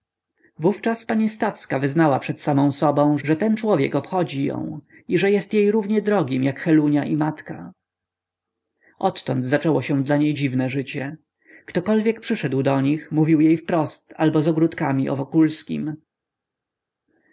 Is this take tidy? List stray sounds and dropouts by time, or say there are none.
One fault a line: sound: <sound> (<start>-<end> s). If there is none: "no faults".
no faults